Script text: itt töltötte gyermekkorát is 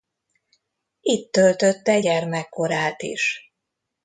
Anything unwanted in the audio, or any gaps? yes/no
no